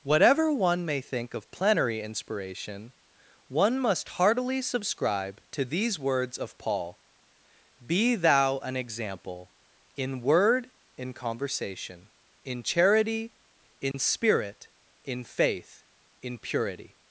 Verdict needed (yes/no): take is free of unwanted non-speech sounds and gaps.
no